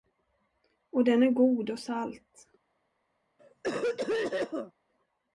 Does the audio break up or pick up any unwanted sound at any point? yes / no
yes